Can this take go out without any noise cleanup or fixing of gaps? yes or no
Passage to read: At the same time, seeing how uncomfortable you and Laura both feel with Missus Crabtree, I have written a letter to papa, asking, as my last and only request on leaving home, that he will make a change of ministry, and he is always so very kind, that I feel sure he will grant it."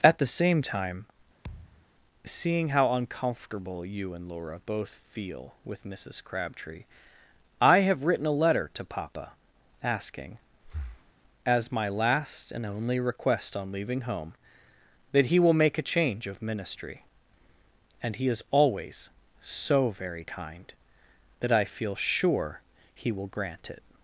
no